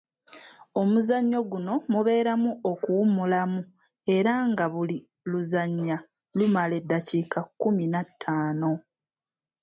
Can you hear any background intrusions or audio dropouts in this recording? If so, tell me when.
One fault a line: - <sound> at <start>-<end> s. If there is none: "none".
none